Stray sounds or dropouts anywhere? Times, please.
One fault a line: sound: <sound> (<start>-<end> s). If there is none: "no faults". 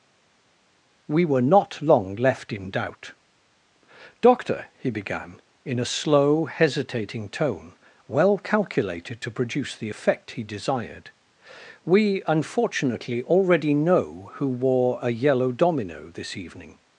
no faults